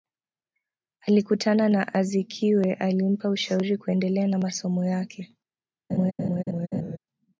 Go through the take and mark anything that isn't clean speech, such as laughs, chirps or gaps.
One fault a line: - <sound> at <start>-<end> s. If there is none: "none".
- laugh at 5.9-7.0 s